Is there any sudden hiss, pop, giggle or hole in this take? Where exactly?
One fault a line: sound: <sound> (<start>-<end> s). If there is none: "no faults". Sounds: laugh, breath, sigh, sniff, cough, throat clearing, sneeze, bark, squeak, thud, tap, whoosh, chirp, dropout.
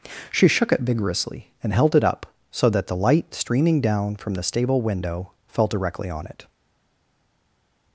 no faults